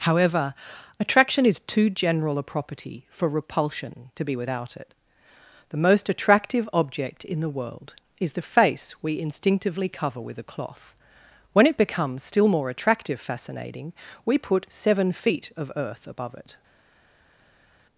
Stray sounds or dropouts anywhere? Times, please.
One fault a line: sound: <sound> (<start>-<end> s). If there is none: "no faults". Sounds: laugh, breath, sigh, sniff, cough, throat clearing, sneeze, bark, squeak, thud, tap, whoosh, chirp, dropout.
no faults